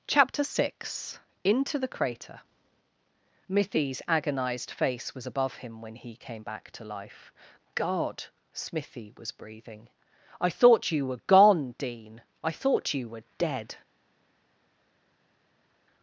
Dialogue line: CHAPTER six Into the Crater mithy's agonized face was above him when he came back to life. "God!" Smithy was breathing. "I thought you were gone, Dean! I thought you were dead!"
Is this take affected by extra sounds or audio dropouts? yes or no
no